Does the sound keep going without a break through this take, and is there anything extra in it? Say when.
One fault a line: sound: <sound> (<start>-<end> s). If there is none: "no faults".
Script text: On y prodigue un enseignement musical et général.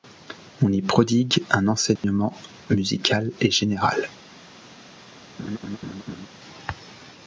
sound: dropout (2.0-2.0 s)
sound: laugh (5.4-6.3 s)